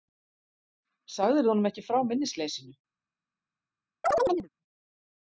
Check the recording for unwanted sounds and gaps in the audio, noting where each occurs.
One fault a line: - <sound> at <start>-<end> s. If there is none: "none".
- chirp at 4.0-4.5 s